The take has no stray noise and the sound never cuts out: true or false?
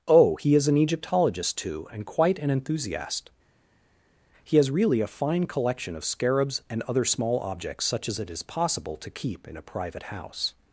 true